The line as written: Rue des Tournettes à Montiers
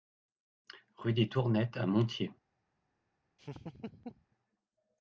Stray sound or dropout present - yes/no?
yes